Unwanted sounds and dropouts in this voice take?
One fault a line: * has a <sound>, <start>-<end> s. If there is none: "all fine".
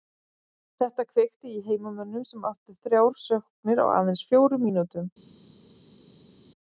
all fine